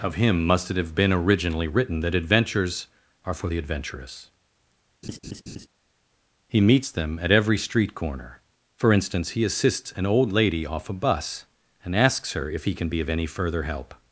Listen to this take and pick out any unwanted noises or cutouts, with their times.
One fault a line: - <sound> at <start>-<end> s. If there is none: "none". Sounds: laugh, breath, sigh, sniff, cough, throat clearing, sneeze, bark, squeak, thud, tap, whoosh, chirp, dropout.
- laugh at 5.0-5.7 s